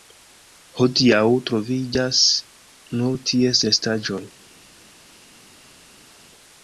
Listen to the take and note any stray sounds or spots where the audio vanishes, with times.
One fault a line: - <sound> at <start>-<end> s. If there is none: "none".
none